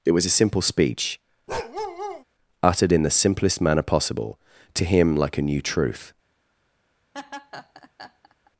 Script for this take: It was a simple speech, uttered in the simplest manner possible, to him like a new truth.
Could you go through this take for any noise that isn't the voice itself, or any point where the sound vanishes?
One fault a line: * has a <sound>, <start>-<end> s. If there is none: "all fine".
* has a bark, 1.5-2.2 s
* has a laugh, 7.1-8.5 s